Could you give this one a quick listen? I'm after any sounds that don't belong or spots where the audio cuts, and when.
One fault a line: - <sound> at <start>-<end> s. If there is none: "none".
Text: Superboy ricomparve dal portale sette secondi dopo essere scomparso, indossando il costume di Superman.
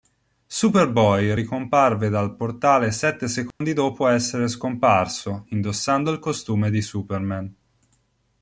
- dropout at 3.5-3.6 s